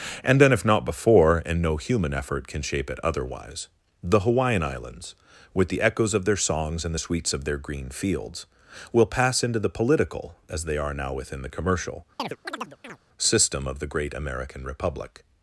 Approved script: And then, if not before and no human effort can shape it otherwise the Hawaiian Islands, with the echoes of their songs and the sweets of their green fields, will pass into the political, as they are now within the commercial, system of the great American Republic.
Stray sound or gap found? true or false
true